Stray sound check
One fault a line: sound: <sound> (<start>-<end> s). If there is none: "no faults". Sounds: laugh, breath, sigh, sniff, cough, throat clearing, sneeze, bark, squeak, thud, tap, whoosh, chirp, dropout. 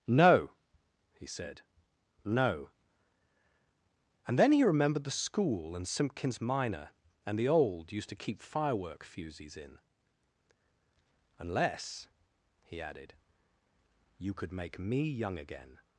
no faults